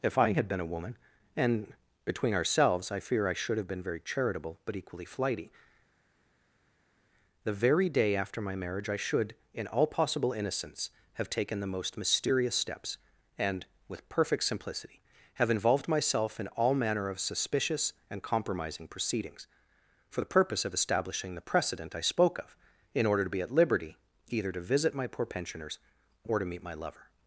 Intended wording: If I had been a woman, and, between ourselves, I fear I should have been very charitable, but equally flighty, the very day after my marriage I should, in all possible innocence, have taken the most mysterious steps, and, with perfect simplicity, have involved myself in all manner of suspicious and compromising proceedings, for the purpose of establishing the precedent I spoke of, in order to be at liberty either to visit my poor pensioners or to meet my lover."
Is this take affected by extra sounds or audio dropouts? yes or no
no